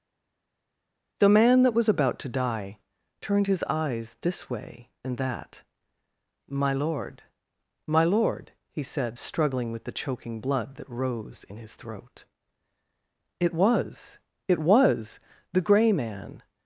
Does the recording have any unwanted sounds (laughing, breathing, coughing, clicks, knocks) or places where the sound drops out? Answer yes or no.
no